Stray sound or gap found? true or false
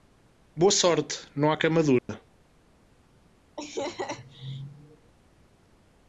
true